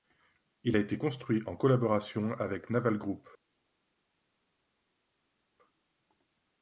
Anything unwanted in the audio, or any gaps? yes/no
no